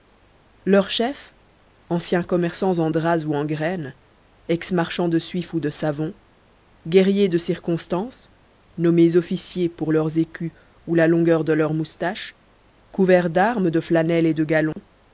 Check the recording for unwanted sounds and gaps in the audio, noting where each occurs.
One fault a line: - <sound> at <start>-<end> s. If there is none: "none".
- dropout at 14.7-14.8 s